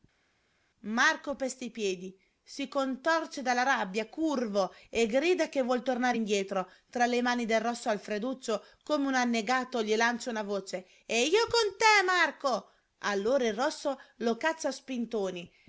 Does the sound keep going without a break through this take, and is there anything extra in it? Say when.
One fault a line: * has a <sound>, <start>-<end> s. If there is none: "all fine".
all fine